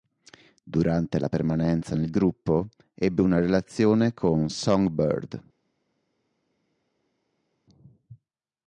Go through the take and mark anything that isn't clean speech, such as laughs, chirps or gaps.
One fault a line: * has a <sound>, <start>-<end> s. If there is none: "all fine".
all fine